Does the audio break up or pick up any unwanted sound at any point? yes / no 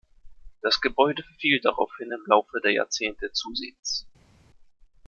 no